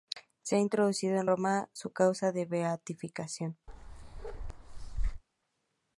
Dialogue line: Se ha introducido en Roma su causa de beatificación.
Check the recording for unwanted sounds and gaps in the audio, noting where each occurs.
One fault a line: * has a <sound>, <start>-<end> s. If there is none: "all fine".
* has a bark, 3.7-5.2 s